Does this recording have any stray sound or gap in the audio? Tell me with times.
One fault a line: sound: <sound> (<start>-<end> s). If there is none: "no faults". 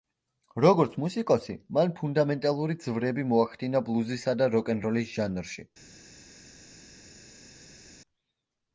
no faults